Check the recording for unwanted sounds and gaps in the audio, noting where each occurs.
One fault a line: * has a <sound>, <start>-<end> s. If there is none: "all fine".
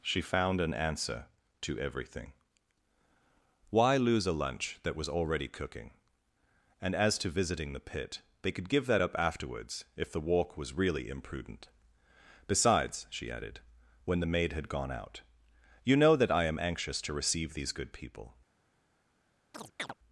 * has a chirp, 19.5-19.9 s